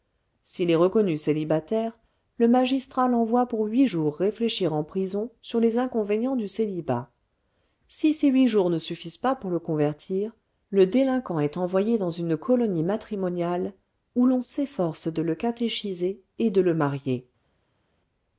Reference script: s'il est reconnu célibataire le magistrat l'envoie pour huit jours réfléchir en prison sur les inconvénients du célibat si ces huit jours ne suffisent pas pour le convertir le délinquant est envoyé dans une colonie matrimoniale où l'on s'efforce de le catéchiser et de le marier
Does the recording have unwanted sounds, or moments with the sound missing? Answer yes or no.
no